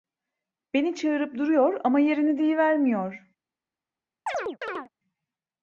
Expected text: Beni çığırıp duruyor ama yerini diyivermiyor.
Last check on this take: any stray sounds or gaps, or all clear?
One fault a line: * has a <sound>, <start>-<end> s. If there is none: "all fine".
* has a chirp, 4.3-4.9 s